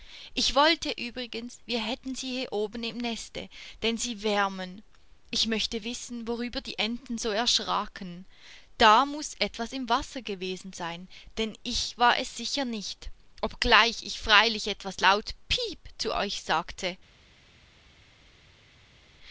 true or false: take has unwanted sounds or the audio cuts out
false